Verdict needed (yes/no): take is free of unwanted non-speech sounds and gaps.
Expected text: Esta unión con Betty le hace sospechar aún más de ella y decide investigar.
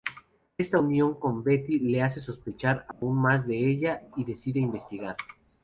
no